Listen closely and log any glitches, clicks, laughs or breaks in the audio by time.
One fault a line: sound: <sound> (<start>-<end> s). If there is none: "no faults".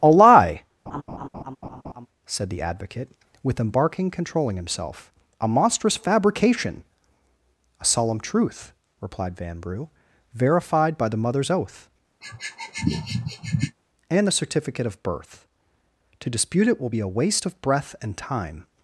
sound: laugh (0.9-2.1 s)
sound: sniff (12.2-13.8 s)